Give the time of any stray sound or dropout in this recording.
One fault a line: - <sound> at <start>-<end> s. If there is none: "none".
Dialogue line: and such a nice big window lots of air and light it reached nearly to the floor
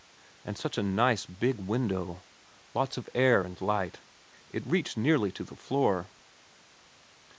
none